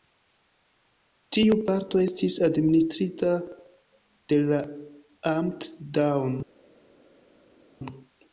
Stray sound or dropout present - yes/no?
no